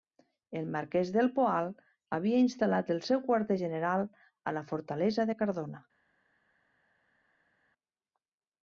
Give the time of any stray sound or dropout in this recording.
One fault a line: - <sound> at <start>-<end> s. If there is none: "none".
none